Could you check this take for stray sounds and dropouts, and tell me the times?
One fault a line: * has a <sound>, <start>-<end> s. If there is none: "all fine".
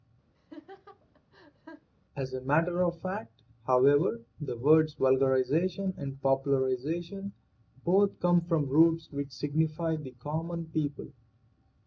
* has a laugh, 0.3-1.9 s